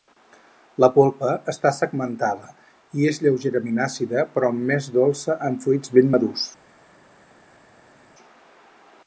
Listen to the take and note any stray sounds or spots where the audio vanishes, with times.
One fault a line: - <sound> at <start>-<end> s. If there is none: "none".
none